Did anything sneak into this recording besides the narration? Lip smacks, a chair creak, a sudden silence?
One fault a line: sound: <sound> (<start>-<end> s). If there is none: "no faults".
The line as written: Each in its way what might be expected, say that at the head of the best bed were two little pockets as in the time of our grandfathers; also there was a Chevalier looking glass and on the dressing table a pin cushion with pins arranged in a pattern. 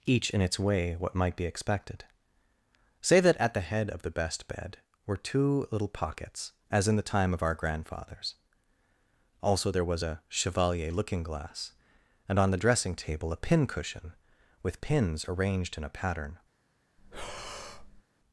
sound: breath (17.0-18.0 s)